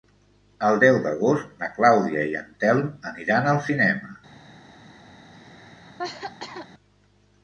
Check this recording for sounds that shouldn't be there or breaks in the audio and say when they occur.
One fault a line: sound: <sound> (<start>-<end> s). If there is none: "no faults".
sound: cough (5.3-6.7 s)